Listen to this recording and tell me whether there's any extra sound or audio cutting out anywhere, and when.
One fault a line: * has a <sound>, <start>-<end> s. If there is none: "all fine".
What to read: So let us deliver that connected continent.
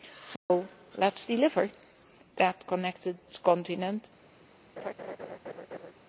* has a dropout, 0.4-0.5 s
* has a laugh, 4.8-5.9 s